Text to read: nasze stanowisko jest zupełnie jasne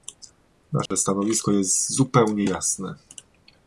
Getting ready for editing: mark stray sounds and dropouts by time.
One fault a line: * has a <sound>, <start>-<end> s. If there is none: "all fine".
* has a dropout, 0.9-0.9 s